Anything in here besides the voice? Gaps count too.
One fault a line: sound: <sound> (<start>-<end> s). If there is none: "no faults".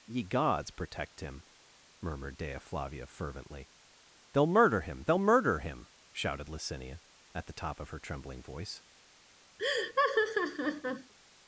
sound: laugh (9.6-11.1 s)